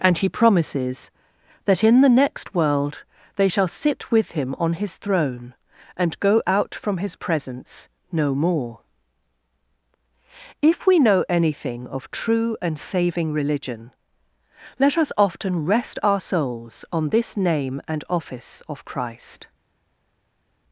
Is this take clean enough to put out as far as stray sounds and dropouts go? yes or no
yes